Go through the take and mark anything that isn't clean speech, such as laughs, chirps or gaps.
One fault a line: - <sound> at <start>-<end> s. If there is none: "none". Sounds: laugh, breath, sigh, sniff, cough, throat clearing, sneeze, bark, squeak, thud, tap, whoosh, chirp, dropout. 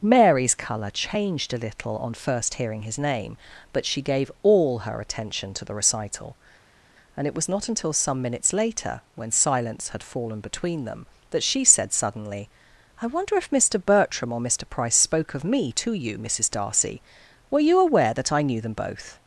none